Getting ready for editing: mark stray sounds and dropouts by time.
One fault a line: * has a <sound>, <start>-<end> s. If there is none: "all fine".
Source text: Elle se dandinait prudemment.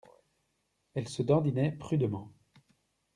all fine